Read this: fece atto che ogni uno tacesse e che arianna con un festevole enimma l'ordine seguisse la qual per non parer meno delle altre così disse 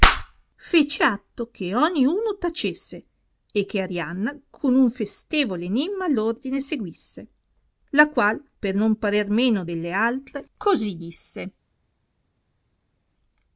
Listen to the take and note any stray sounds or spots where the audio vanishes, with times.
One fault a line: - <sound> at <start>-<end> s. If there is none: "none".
none